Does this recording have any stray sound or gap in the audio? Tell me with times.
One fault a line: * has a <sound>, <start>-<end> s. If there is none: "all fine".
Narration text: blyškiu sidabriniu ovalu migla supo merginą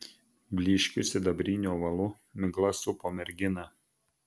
all fine